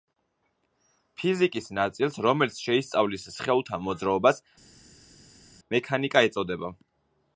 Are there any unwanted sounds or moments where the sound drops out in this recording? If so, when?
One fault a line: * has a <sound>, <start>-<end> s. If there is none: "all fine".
all fine